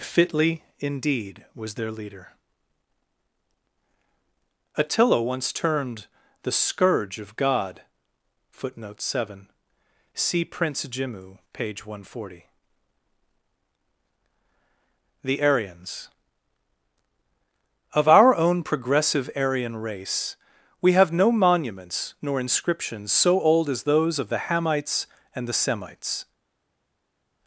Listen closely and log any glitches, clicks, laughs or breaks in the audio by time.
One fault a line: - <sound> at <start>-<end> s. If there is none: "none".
none